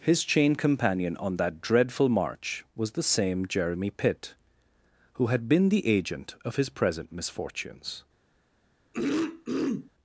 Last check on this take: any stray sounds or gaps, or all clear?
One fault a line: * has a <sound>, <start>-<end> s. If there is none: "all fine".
* has a throat clearing, 8.9-9.9 s